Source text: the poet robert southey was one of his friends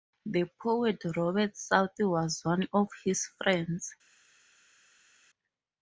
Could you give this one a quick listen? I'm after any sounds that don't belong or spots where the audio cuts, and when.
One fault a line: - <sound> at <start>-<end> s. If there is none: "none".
none